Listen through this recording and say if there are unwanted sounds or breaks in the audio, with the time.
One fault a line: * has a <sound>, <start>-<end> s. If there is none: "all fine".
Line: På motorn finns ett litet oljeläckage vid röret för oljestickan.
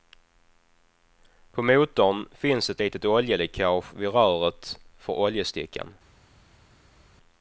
all fine